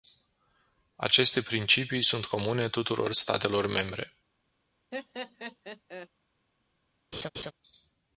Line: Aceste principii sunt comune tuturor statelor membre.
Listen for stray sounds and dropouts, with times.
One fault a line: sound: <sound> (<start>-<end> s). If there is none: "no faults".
sound: laugh (4.9-6.1 s)
sound: laugh (7.1-7.5 s)